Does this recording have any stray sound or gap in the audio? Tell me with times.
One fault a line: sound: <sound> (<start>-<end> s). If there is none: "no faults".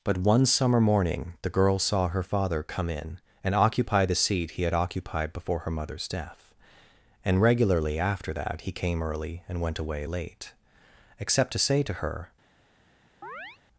sound: chirp (13.2-13.6 s)